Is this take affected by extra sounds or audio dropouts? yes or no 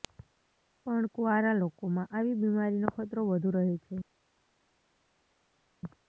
no